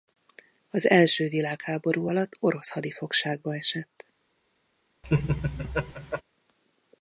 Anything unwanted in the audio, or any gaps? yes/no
yes